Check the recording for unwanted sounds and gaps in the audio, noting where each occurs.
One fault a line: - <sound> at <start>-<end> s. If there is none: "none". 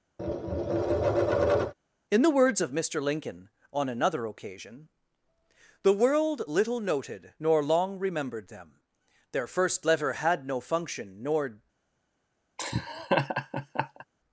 - tap at 0.2-1.7 s
- laugh at 12.6-14.0 s